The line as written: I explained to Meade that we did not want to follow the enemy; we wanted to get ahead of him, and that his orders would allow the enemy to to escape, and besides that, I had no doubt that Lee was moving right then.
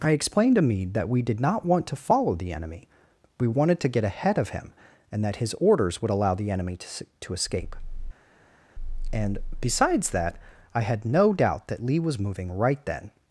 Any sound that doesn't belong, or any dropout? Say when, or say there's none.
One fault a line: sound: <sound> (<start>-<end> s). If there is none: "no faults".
no faults